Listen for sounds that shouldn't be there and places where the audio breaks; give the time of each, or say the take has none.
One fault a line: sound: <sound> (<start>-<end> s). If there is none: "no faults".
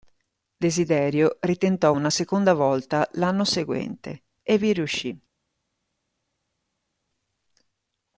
no faults